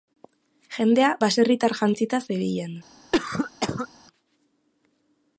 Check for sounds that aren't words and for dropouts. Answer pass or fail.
fail